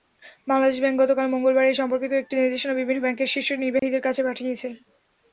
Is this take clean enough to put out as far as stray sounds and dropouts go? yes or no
no